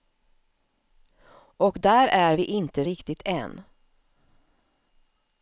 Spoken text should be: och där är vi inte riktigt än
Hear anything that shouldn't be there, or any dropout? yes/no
no